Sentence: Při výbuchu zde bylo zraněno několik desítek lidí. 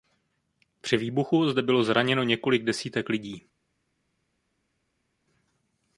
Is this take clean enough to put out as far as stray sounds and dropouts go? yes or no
yes